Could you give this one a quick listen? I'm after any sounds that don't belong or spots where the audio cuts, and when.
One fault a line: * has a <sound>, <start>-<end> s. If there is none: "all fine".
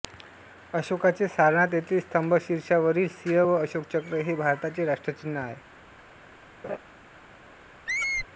* has a laugh, 6.6-6.8 s
* has a squeak, 7.9-8.3 s